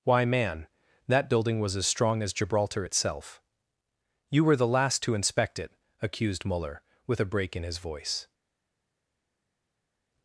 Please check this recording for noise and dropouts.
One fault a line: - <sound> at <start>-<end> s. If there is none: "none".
none